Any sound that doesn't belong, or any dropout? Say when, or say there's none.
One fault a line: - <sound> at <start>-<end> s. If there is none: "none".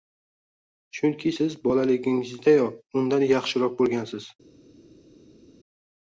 none